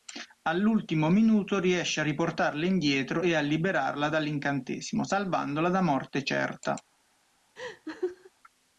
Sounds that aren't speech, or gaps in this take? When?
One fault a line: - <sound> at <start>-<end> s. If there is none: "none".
- laugh at 7.6-8.3 s